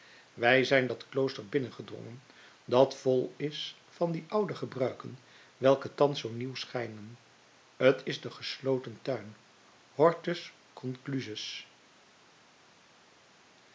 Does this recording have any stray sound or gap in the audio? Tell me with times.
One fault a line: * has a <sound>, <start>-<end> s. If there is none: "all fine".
all fine